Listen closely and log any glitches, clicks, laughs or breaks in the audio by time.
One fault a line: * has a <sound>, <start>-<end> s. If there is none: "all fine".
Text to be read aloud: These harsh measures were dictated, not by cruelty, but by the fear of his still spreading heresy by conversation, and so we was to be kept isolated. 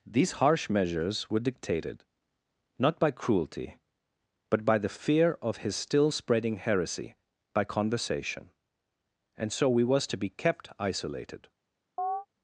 * has a chirp, 12.0-12.3 s